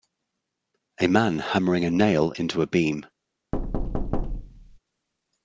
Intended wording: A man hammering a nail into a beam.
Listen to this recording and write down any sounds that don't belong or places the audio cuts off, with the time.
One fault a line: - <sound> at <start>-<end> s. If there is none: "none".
- thud at 3.5-4.8 s